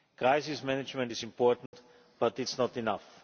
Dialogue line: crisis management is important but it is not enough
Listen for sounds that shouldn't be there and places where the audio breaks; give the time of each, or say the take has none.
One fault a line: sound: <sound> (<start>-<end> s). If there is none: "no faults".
sound: dropout (1.7-1.7 s)